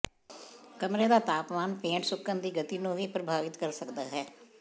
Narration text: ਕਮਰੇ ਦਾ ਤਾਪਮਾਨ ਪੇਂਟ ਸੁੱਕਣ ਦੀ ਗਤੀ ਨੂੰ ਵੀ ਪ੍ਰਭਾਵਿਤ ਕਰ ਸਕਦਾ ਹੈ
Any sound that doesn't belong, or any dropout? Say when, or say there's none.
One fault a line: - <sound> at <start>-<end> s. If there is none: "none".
none